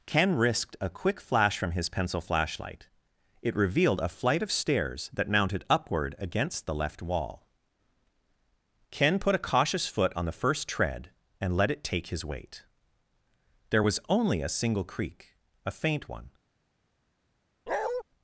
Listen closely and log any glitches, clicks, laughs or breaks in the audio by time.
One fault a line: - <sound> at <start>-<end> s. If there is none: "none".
- bark at 17.7-18.0 s